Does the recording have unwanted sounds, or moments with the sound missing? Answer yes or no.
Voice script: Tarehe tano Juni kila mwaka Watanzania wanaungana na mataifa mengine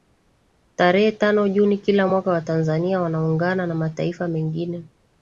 no